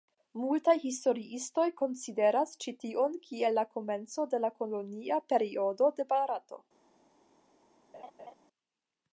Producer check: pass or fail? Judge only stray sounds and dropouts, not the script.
fail